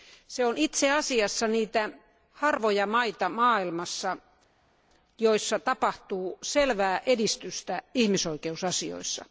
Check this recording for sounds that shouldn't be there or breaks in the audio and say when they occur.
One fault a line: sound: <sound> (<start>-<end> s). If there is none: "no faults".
no faults